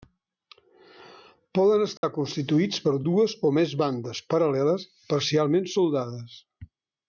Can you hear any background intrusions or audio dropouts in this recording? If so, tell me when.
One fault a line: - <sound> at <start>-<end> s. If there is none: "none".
- dropout at 2.0-2.0 s